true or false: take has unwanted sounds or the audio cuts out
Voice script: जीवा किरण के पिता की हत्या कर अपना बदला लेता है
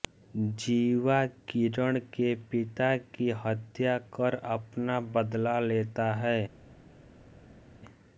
false